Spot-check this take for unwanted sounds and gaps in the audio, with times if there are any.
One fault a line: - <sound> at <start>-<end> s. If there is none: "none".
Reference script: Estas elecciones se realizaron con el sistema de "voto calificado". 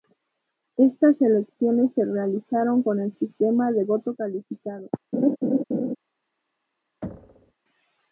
- laugh at 5.1-6.0 s
- thud at 7.0-7.5 s